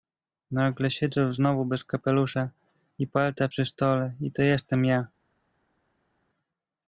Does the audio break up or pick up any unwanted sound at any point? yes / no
no